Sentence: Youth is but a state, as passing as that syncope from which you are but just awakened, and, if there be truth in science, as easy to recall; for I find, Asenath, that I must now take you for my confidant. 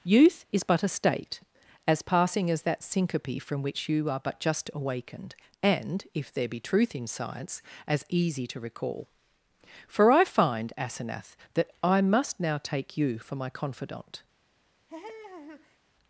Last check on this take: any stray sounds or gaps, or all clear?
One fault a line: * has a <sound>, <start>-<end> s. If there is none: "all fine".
* has a laugh, 14.9-15.8 s